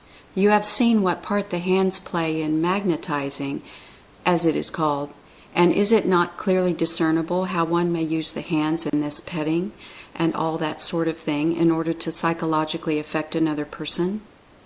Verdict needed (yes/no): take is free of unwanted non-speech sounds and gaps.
no